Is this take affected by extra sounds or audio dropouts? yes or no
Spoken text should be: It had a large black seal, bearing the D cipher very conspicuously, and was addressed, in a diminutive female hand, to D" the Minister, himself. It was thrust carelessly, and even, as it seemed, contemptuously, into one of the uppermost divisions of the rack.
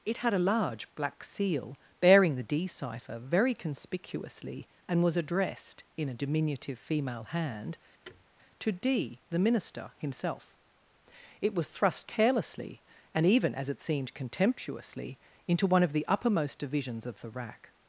yes